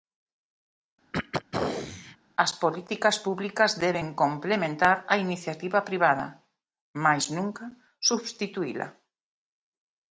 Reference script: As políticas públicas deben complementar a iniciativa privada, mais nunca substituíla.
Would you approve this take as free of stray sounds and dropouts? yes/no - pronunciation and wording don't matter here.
no